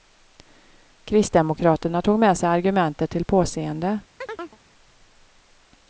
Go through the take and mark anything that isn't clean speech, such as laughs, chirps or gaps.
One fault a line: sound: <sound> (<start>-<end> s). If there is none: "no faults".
sound: chirp (4.2-4.6 s)